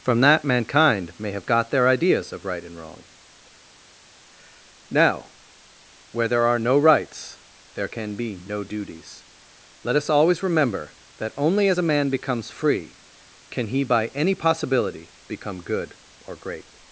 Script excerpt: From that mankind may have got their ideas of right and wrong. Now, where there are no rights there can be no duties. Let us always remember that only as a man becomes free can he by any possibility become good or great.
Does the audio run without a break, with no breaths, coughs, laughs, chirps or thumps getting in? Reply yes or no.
yes